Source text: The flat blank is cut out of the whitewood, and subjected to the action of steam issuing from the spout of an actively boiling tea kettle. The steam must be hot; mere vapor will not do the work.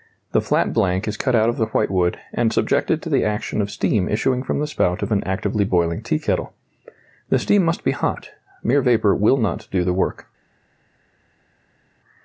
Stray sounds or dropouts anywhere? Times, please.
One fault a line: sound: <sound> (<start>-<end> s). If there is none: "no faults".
no faults